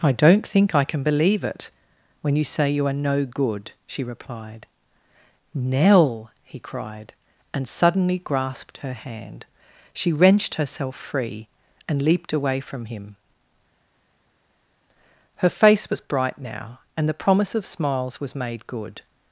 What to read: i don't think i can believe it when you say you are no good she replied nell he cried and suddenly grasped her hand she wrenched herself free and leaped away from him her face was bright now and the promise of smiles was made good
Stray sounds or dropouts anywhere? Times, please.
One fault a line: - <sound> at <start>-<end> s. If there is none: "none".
none